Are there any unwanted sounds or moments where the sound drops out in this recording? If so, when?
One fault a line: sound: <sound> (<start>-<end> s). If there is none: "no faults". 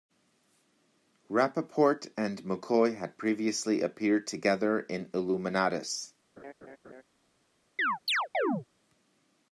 sound: laugh (6.4-7.0 s)
sound: chirp (7.8-8.7 s)